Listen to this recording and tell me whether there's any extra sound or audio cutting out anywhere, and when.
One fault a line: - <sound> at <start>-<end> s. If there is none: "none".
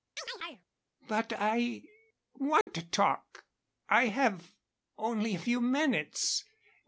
- chirp at 0.2-0.7 s
- dropout at 2.6-2.7 s